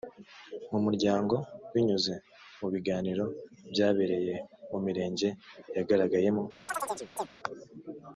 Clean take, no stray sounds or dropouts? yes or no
no